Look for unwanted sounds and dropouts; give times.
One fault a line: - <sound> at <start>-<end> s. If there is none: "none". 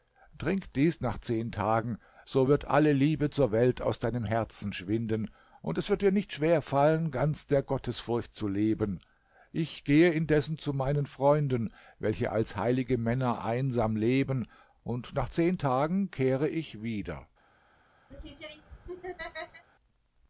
- laugh at 18.1-19.7 s